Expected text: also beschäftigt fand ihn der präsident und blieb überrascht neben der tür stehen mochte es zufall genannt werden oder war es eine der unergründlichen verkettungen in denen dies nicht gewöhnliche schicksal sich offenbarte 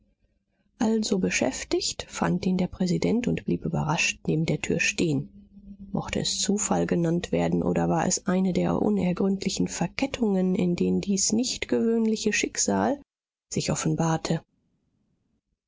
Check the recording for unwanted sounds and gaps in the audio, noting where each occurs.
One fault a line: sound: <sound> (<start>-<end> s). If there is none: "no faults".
no faults